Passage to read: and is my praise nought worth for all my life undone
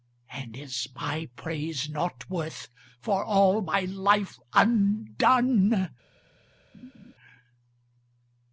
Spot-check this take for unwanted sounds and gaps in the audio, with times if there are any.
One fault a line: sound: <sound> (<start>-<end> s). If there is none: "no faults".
sound: laugh (6.7-7.1 s)